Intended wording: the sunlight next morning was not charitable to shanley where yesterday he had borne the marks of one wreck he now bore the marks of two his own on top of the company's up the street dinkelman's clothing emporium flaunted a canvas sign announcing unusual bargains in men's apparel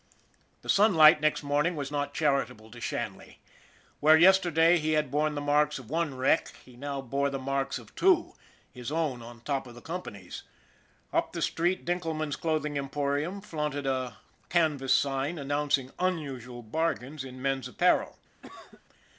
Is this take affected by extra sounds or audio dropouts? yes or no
yes